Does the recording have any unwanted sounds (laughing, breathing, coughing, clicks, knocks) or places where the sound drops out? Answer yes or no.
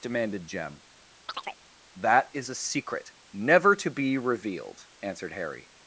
yes